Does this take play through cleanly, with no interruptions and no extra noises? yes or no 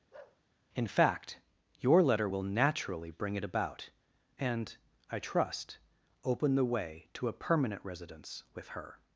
no